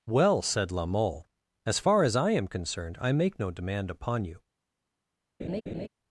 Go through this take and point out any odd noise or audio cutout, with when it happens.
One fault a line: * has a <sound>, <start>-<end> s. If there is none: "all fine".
* has a laugh, 5.4-5.9 s